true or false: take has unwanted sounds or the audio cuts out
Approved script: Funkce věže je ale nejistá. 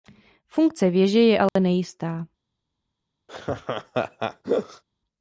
true